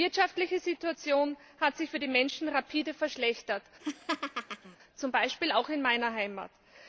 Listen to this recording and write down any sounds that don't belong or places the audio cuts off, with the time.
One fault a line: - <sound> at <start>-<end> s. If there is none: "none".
- laugh at 3.8-4.8 s